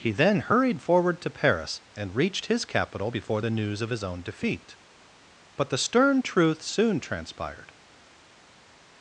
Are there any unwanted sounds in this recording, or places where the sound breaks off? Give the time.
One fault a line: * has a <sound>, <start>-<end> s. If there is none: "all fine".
all fine